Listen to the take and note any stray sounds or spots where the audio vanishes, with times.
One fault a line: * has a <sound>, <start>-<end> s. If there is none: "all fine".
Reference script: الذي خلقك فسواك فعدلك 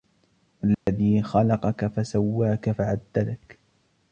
* has a dropout, 0.7-0.9 s